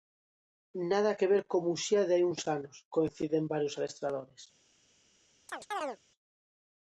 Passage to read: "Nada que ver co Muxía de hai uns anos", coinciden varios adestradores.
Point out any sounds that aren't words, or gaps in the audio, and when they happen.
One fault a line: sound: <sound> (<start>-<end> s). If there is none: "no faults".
sound: chirp (5.5-6.0 s)